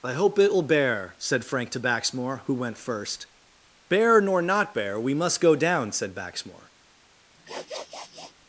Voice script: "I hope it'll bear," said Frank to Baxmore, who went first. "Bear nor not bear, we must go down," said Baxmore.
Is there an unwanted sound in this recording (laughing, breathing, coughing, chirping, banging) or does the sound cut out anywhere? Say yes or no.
yes